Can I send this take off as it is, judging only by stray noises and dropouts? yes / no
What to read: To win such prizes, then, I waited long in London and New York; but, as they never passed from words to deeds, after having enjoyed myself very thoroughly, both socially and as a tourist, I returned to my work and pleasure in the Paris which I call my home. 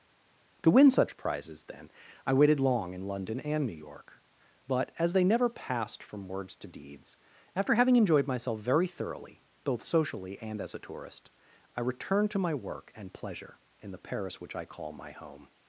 yes